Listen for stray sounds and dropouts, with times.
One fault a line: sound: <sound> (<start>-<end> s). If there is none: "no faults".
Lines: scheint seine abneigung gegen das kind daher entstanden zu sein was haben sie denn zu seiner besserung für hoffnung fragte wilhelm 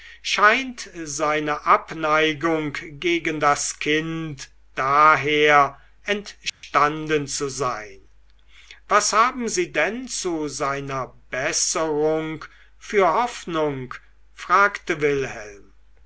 sound: dropout (6.5-6.6 s)